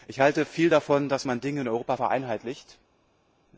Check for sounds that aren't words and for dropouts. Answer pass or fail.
pass